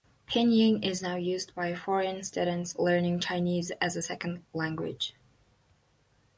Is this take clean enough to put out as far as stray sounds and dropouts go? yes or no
yes